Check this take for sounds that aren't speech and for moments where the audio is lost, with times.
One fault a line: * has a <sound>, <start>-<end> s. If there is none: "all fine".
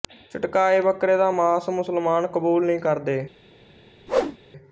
* has a whoosh, 4.1-4.4 s